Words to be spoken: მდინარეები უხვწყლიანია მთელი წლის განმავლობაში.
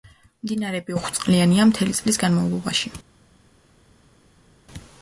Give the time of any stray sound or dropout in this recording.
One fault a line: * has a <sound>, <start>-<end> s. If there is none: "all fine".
all fine